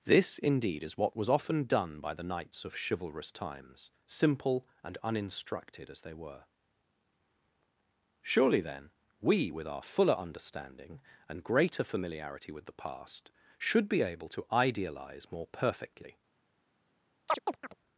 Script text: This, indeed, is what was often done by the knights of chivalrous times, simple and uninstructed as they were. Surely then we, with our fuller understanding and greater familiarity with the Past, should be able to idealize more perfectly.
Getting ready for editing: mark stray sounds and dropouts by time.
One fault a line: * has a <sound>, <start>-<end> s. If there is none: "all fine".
* has a chirp, 17.3-17.7 s